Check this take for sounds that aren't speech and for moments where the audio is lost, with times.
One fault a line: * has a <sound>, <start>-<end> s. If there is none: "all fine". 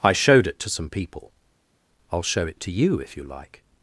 all fine